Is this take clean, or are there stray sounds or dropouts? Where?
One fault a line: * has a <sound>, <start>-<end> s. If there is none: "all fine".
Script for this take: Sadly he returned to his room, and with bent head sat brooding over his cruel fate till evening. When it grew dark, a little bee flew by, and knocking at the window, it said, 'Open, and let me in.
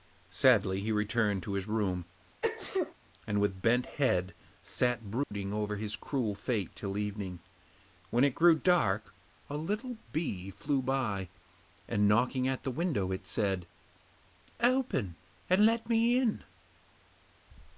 * has a sneeze, 2.4-2.9 s
* has a dropout, 5.2-5.3 s